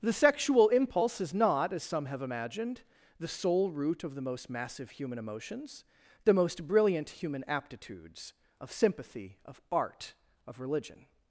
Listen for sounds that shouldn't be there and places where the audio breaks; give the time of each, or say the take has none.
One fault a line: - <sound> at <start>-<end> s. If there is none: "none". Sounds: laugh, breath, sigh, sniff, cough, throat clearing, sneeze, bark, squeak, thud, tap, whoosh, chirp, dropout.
none